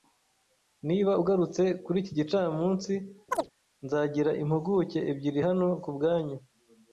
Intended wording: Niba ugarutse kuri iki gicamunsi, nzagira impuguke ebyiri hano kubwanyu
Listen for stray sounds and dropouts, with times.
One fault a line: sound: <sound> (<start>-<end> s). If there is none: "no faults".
sound: chirp (3.3-3.5 s)